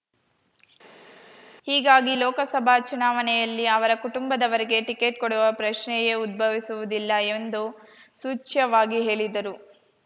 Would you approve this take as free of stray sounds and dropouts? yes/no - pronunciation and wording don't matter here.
yes